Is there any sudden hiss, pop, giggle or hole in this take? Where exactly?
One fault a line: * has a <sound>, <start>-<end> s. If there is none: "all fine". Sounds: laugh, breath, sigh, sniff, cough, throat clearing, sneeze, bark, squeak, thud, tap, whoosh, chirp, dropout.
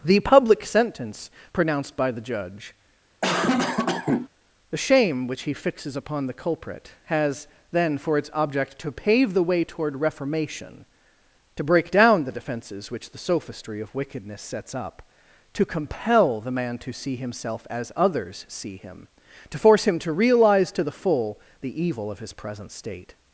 * has a cough, 3.2-4.3 s